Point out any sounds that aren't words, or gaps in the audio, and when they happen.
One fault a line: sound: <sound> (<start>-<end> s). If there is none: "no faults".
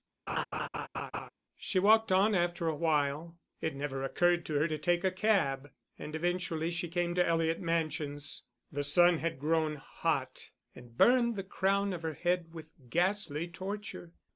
sound: laugh (0.3-1.3 s)